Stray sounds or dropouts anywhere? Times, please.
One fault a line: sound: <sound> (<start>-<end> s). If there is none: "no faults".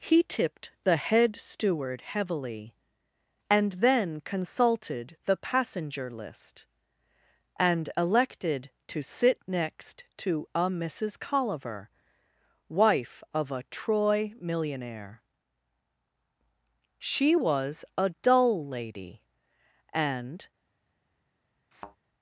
sound: thud (21.7-22.0 s)